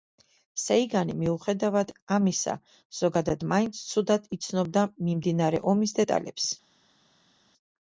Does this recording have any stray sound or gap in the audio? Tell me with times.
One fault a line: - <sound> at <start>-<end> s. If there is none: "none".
none